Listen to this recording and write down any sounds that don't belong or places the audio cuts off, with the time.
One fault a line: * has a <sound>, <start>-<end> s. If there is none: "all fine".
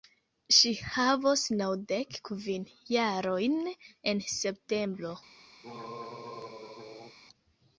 * has a throat clearing, 5.6-7.2 s